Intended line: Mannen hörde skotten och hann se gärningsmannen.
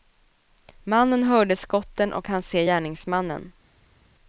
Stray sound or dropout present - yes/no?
no